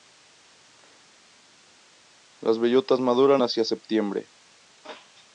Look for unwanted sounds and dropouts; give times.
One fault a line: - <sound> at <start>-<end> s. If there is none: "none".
none